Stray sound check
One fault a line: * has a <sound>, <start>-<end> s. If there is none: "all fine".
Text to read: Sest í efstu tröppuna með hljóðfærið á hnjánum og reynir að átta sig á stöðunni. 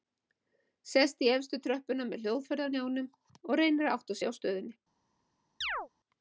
* has a chirp, 5.6-5.9 s